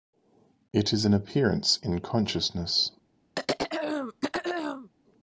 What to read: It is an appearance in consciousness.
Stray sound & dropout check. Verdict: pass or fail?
fail